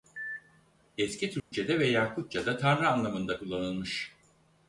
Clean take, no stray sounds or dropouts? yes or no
no